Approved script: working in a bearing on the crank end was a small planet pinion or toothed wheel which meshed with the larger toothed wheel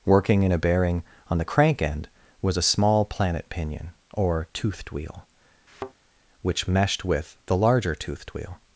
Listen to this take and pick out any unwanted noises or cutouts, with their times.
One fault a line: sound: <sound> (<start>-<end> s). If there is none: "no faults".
sound: thud (5.7-5.9 s)